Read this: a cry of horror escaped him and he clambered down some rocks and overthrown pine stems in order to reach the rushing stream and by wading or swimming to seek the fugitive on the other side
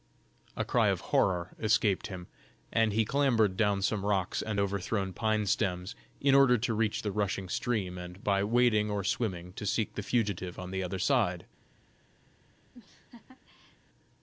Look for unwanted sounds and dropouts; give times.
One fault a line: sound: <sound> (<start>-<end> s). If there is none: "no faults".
sound: laugh (12.7-13.8 s)